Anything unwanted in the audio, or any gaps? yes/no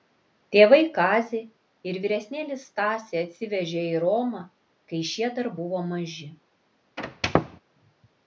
yes